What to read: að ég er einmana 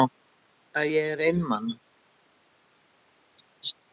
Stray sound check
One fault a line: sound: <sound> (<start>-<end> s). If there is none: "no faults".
no faults